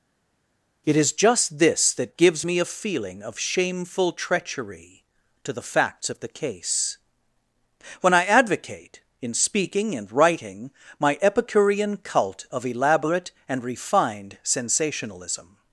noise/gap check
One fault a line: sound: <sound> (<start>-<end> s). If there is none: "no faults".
no faults